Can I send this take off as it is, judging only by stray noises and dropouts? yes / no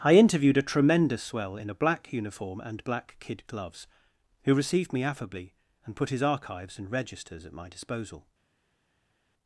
yes